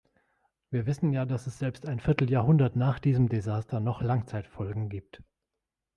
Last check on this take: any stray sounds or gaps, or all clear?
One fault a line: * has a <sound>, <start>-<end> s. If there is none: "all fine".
all fine